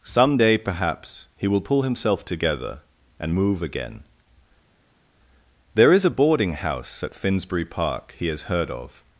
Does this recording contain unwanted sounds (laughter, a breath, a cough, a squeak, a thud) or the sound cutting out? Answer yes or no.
no